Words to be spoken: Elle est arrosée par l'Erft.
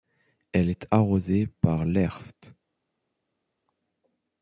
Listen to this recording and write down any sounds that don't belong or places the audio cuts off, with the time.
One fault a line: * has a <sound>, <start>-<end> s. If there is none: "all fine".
all fine